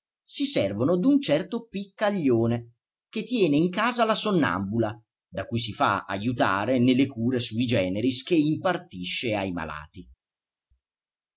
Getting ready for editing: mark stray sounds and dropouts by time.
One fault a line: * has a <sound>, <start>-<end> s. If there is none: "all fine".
all fine